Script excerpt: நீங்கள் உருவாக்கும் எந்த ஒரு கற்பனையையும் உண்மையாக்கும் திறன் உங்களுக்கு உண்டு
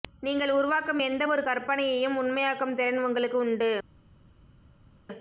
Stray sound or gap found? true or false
false